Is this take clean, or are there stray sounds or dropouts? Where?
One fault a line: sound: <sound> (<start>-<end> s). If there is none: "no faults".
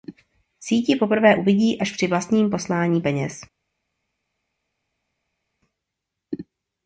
no faults